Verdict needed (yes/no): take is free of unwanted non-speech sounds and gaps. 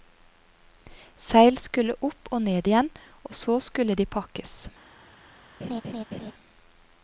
no